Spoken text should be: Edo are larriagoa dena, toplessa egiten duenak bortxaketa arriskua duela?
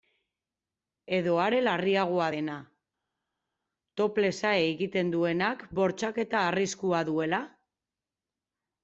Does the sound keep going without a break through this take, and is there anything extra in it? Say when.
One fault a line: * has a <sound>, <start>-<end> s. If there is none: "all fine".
all fine